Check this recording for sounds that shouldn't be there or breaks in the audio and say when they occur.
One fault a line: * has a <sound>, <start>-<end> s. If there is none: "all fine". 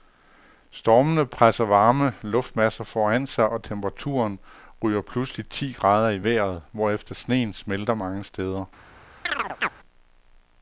* has a chirp, 9.3-9.7 s